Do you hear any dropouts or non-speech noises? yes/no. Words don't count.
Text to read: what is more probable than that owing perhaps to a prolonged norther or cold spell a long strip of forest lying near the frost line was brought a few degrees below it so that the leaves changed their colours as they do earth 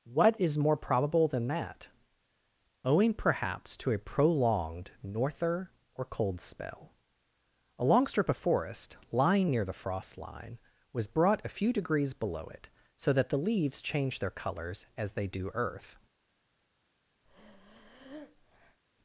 yes